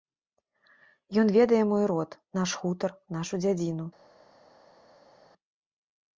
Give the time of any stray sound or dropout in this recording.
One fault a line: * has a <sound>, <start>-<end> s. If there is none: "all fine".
all fine